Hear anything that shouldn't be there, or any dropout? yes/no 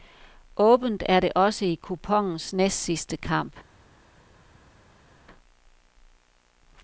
no